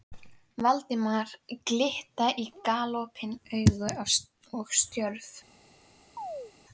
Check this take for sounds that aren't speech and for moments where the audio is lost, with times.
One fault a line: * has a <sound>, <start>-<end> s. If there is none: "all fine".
* has a chirp, 6.2-6.5 s